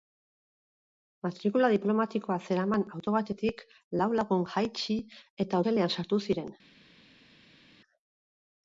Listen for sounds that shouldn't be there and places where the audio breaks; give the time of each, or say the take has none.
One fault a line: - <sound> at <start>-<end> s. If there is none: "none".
none